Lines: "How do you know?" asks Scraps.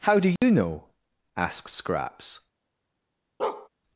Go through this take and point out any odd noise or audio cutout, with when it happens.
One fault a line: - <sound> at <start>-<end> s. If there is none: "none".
- dropout at 0.4-0.4 s
- bark at 3.4-3.7 s